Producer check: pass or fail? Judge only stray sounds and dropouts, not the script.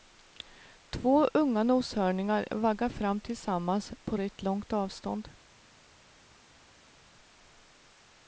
pass